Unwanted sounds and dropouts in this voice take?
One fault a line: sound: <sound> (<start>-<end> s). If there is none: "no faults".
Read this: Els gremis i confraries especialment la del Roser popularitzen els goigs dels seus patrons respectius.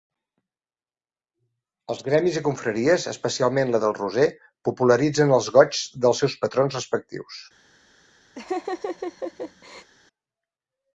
sound: laugh (8.4-9.9 s)